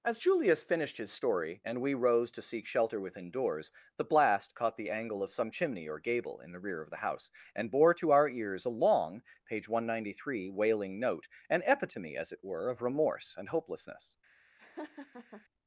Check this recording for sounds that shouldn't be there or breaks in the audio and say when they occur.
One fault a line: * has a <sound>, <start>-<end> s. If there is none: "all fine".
* has a laugh, 14.6-15.5 s